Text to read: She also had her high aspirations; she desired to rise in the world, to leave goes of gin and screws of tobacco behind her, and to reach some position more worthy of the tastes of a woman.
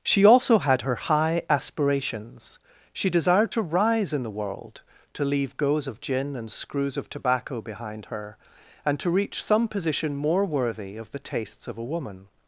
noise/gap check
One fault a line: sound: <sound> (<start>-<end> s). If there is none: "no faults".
no faults